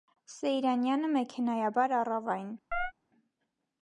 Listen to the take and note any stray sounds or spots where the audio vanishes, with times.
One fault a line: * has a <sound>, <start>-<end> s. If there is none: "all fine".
* has a chirp, 2.7-2.9 s